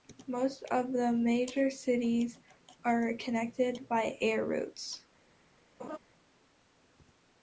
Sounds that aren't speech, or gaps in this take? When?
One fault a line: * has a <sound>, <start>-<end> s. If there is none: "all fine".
* has a laugh, 5.8-6.0 s